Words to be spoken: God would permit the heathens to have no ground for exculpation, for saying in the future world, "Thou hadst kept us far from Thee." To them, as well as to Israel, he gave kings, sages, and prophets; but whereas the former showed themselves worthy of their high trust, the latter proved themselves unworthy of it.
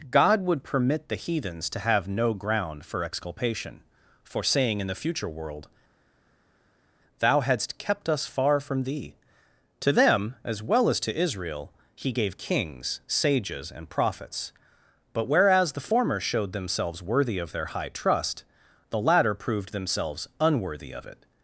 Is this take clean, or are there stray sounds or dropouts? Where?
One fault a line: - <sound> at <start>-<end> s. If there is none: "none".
none